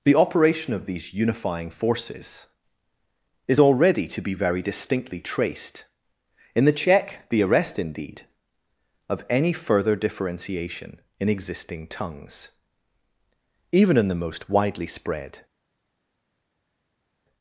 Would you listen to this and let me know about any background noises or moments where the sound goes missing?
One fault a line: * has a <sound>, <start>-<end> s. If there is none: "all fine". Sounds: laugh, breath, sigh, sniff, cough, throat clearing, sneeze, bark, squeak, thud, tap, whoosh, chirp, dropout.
all fine